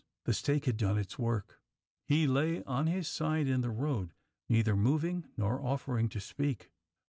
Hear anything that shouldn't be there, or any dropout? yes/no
no